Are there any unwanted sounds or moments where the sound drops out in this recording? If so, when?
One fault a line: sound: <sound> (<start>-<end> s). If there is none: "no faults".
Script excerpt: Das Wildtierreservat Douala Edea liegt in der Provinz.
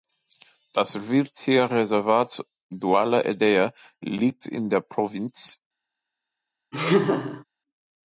sound: laugh (6.7-7.4 s)